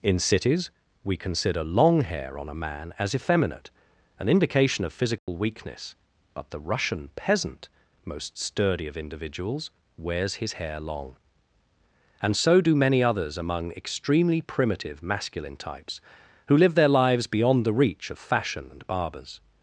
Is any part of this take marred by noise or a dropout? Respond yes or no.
yes